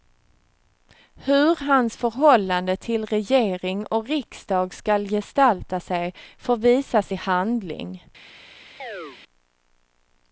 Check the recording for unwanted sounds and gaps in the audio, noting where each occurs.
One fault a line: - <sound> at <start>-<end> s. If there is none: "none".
- chirp at 8.8-9.2 s